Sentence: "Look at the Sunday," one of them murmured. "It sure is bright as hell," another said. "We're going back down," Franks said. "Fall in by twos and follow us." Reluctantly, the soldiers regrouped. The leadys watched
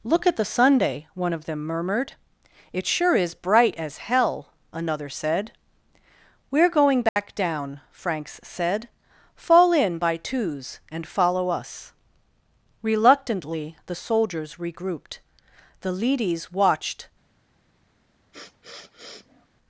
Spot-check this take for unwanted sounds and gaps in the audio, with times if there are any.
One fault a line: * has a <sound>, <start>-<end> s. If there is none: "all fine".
* has a dropout, 7.1-7.2 s
* has a sniff, 18.3-19.5 s